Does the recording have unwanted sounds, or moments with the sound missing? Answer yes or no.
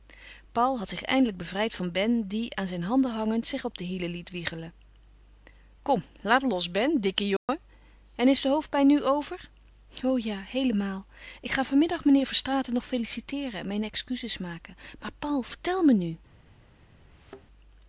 yes